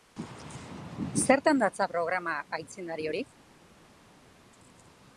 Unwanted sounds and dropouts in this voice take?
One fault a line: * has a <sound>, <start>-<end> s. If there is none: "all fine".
all fine